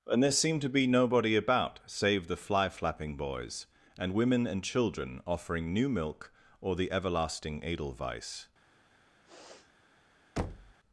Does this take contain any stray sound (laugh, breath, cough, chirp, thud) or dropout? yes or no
yes